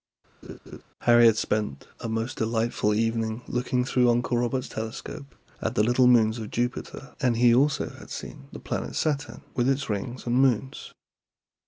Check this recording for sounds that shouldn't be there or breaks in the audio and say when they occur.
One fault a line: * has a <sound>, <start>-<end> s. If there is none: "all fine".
* has a laugh, 0.4-0.8 s